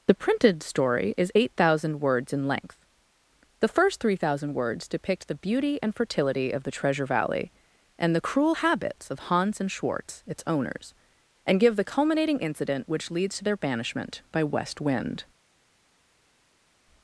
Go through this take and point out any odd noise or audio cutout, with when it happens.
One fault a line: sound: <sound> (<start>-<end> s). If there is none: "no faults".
no faults